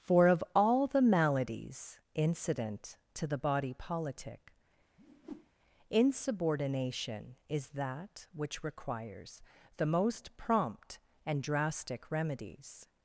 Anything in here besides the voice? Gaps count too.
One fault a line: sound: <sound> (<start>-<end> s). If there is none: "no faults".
sound: whoosh (5.0-5.5 s)